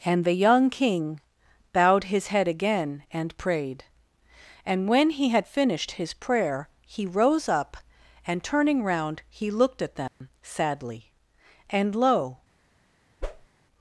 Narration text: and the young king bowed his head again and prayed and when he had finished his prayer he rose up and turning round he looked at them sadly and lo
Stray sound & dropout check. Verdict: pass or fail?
fail